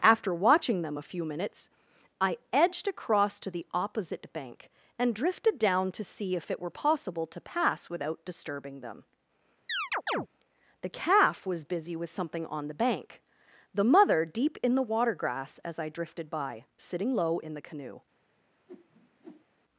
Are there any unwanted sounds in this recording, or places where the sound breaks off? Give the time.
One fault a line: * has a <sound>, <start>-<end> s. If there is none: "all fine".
* has a chirp, 9.7-10.3 s
* has a whoosh, 18.7-19.5 s